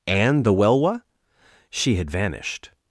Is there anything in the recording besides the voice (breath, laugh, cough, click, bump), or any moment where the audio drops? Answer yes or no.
no